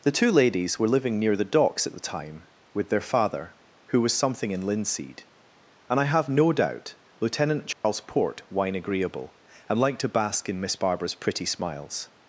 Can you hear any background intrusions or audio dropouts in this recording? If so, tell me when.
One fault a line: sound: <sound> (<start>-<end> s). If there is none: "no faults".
sound: dropout (7.7-7.8 s)